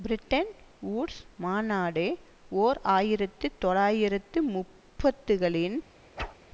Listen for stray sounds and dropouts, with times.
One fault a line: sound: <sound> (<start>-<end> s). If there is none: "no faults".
sound: whoosh (6.2-6.4 s)